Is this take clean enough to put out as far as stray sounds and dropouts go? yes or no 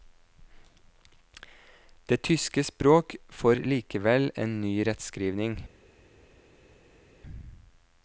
yes